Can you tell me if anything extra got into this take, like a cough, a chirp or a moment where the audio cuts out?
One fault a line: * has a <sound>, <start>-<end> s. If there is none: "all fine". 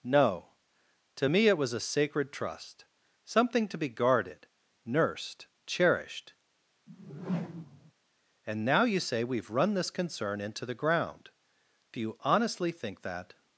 * has a whoosh, 6.9-7.9 s